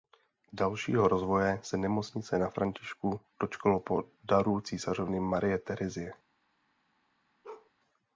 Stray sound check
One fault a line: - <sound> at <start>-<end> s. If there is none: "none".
- bark at 7.4-7.7 s